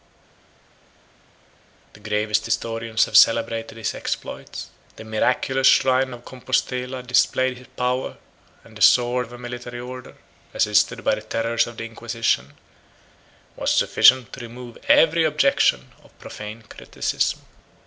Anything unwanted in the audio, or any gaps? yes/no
no